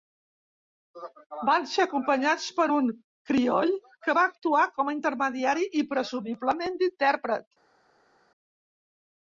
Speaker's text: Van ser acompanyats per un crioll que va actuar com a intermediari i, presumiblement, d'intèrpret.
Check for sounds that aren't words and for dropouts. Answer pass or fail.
pass